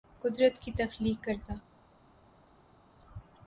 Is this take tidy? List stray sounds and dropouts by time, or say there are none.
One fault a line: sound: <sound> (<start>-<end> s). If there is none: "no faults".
no faults